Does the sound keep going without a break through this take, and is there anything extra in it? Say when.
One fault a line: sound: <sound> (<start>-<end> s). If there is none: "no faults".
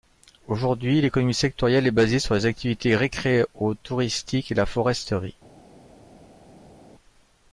no faults